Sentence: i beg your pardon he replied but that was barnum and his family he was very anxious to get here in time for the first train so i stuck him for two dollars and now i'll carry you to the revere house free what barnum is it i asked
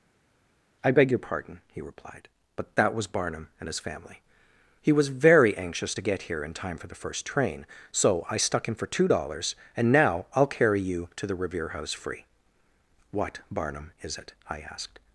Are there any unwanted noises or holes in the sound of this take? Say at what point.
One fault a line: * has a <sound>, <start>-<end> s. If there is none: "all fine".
all fine